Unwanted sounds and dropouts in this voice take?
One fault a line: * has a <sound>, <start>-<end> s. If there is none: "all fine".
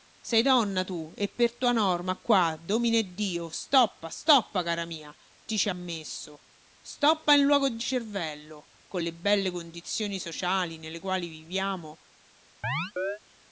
* has a chirp, 12.6-13.2 s